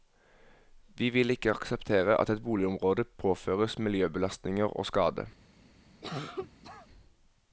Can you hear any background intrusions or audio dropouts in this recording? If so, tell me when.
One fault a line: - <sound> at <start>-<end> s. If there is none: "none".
- cough at 6.0-6.9 s